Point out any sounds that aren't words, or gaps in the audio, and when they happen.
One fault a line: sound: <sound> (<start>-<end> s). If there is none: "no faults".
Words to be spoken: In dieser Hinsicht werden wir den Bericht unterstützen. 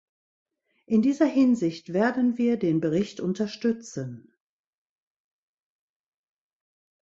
no faults